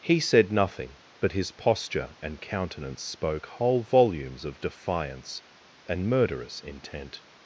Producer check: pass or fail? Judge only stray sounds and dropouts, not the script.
pass